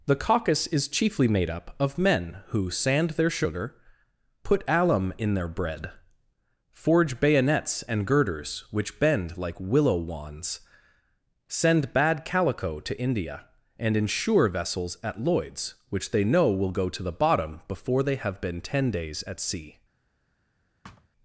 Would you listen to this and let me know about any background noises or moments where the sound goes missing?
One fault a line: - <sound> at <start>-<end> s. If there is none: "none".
- thud at 20.8-21.1 s